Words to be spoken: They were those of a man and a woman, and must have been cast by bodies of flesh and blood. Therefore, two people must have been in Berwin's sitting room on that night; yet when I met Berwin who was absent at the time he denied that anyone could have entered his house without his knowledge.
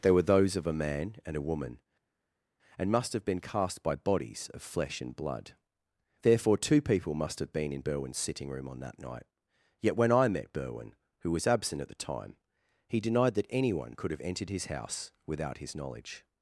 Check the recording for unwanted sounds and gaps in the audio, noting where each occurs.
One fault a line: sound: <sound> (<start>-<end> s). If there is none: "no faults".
no faults